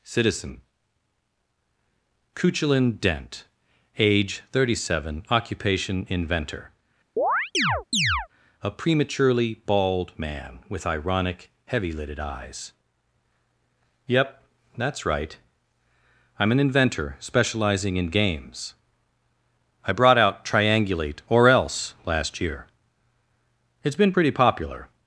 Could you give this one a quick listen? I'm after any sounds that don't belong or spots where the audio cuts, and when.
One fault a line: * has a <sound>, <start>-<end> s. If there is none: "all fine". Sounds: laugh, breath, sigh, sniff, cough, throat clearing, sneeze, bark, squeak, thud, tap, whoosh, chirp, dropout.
* has a chirp, 7.2-8.3 s